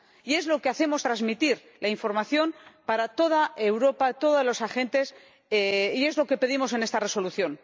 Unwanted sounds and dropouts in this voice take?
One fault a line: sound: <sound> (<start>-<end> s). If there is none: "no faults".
no faults